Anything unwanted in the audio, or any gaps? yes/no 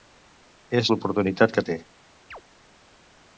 yes